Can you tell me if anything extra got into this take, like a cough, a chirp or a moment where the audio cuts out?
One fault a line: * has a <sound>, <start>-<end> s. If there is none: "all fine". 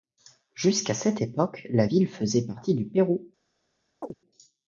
* has a chirp, 4.0-4.1 s